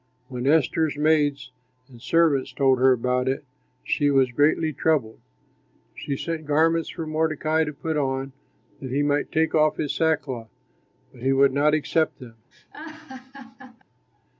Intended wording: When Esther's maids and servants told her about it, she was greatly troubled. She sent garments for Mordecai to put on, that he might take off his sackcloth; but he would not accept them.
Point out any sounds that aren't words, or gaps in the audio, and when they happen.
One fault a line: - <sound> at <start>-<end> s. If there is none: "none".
- laugh at 12.5-13.8 s